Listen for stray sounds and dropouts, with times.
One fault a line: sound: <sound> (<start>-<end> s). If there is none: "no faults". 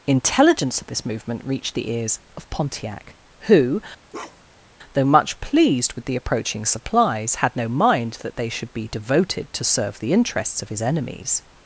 sound: bark (4.1-4.7 s)